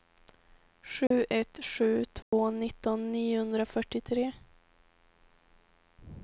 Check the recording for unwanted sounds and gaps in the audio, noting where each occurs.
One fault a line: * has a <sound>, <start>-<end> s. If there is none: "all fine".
* has a dropout, 1.1-1.1 s
* has a dropout, 2.2-2.3 s